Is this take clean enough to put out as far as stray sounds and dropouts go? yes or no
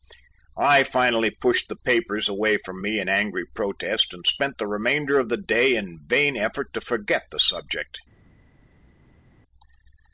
yes